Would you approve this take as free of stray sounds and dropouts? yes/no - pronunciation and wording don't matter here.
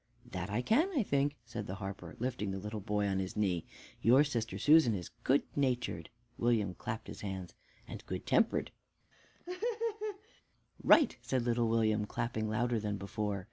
no